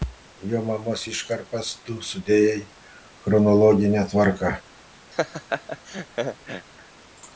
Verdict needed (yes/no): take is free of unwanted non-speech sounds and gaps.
no